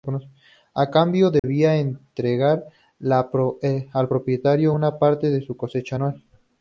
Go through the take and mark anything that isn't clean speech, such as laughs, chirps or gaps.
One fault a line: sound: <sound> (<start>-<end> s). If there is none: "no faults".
sound: dropout (1.4-1.4 s)